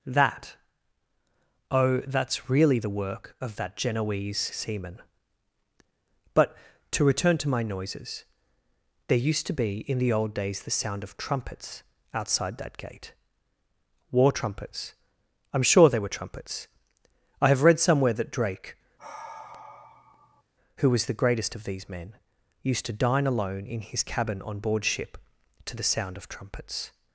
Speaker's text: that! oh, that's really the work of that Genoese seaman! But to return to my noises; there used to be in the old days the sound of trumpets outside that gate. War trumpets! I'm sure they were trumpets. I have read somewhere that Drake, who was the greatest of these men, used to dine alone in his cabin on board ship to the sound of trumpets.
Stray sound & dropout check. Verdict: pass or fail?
fail